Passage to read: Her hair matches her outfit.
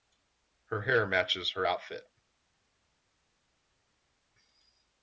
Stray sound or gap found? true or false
false